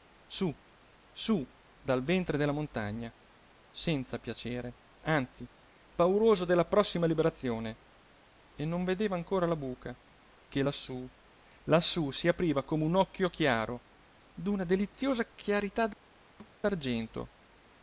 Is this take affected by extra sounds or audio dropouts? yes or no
yes